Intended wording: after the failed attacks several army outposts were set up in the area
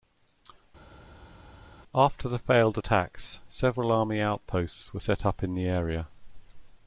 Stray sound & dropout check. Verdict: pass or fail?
pass